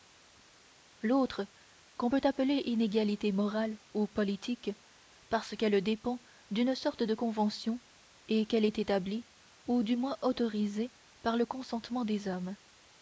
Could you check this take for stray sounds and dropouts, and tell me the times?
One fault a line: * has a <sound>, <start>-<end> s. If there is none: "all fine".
all fine